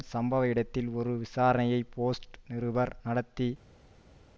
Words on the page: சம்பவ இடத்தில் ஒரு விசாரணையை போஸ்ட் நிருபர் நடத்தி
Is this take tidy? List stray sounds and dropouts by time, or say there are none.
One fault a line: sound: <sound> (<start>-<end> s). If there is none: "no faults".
no faults